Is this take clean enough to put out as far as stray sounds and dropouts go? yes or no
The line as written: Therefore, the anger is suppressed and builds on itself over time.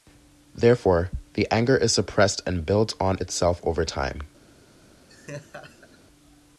no